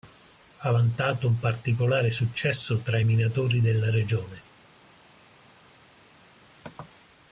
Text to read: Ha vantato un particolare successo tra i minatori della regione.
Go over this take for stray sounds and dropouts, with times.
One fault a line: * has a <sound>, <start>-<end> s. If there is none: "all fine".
all fine